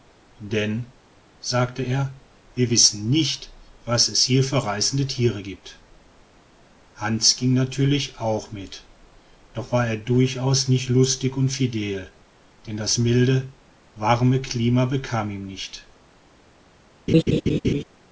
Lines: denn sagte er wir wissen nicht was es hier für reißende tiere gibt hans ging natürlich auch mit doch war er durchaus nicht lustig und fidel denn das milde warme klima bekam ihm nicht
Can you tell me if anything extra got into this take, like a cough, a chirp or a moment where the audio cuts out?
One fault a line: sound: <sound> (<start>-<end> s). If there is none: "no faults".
sound: laugh (17.1-17.8 s)